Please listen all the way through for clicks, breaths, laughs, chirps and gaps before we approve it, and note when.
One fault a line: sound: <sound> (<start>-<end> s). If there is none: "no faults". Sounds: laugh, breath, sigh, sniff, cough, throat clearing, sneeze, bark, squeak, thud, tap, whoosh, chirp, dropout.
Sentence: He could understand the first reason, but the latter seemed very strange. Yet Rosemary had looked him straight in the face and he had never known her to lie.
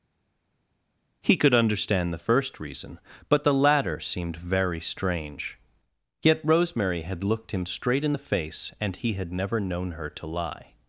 no faults